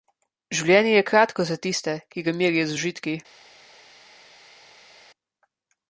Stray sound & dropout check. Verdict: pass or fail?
pass